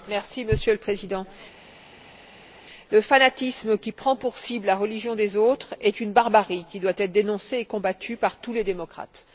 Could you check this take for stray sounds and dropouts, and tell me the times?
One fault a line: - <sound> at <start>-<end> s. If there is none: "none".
none